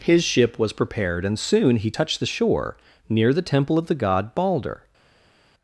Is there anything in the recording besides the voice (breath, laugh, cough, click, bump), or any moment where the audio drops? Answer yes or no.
no